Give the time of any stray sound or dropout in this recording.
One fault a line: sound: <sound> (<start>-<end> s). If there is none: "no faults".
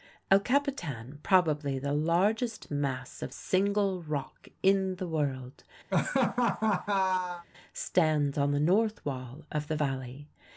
sound: laugh (5.9-7.5 s)